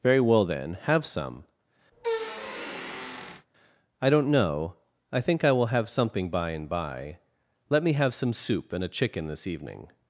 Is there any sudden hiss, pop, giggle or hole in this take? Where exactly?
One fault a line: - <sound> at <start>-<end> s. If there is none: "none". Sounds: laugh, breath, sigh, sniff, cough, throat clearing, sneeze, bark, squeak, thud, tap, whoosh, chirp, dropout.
- squeak at 1.9-3.5 s